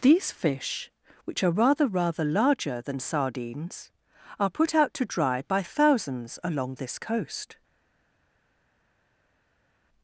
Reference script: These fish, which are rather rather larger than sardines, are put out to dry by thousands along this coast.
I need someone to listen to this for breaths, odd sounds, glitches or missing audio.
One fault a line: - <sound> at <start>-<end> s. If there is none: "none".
none